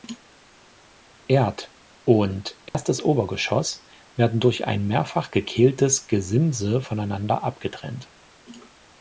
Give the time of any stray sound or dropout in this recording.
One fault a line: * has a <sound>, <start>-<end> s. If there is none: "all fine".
* has a dropout, 2.7-2.7 s